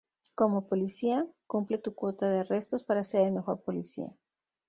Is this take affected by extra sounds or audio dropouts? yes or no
no